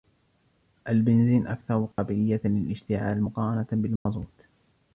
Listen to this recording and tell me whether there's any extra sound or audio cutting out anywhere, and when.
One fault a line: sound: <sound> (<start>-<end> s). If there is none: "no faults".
sound: dropout (1.9-2.0 s)
sound: dropout (4.0-4.1 s)